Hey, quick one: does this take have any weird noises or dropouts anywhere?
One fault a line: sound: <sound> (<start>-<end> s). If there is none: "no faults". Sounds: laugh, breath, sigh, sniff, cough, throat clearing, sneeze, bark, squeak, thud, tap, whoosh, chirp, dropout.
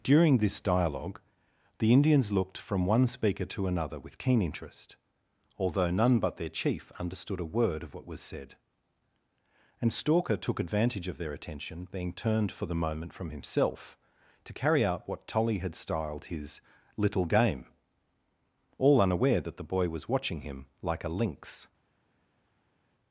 no faults